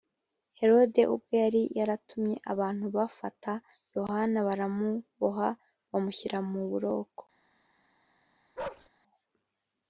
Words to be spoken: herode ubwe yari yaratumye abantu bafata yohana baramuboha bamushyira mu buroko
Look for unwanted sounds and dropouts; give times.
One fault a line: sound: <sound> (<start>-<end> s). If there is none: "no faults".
sound: bark (8.6-8.9 s)